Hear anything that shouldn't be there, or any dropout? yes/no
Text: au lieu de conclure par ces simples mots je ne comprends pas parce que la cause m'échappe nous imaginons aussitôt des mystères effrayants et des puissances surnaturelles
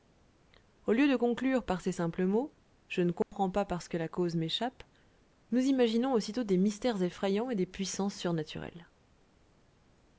yes